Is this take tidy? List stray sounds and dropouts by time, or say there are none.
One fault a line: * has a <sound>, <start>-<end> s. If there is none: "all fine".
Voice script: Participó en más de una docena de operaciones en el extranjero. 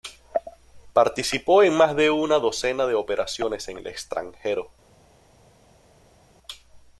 all fine